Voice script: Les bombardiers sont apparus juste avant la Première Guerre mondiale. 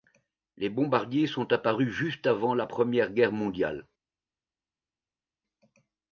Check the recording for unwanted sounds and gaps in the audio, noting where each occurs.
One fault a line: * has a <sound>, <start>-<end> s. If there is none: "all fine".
all fine